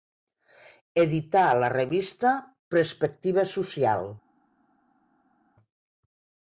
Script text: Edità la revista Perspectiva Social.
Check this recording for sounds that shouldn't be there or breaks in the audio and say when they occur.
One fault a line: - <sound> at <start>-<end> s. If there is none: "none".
none